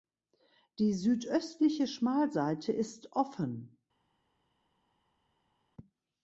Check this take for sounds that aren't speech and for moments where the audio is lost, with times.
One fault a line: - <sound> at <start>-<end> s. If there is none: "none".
none